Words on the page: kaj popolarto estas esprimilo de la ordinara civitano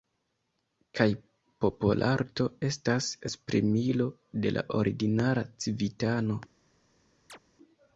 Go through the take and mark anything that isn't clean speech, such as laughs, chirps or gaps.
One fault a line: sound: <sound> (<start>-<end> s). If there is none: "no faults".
sound: chirp (7.3-7.4 s)